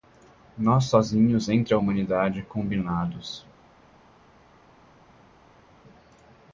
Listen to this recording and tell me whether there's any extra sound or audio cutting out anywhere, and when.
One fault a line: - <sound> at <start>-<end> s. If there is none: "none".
none